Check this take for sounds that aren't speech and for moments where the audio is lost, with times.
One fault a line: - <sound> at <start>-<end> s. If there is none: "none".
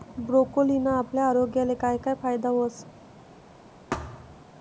- thud at 3.9-4.4 s